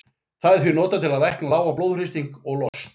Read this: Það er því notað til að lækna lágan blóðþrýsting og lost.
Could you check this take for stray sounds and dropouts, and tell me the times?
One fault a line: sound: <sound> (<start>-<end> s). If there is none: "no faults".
sound: dropout (2.7-2.7 s)